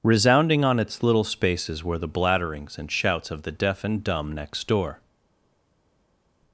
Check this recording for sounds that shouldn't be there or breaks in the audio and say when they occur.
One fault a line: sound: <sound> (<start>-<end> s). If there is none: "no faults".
no faults